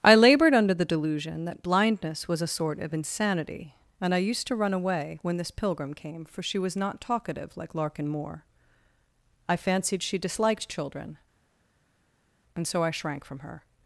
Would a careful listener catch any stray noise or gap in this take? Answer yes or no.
no